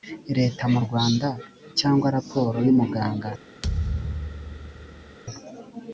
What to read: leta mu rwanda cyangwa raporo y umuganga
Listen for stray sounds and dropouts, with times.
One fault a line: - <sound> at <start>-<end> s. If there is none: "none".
- thud at 3.6-5.2 s